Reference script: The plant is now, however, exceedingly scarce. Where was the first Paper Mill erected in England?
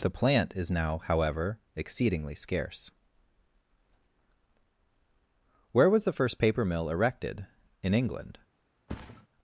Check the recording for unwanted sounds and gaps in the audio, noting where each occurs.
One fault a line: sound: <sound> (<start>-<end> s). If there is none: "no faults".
sound: thud (8.9-9.3 s)